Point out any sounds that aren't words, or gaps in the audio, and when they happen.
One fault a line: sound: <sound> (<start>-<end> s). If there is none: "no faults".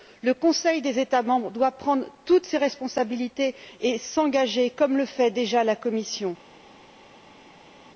no faults